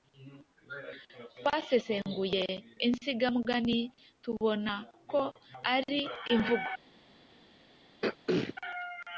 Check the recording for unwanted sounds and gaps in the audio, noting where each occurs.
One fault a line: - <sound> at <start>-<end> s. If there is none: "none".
- throat clearing at 8.0-8.5 s